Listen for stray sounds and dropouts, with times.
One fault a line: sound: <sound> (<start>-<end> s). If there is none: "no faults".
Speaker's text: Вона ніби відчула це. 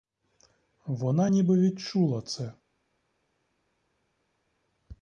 no faults